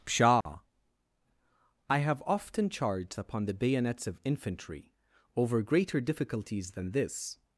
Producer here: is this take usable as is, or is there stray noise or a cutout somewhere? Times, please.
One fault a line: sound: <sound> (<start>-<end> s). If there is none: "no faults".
sound: dropout (0.4-0.5 s)